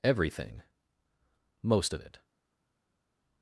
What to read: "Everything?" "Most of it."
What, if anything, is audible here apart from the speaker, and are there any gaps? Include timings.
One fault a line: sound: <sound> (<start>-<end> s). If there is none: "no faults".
no faults